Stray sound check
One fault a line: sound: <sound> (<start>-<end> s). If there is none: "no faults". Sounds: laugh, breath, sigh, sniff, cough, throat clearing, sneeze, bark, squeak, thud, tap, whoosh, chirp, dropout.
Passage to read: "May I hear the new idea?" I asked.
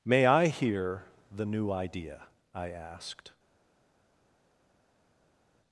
no faults